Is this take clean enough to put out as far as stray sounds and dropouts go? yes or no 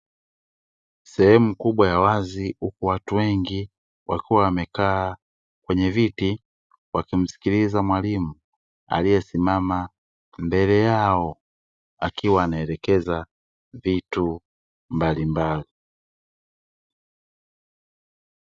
yes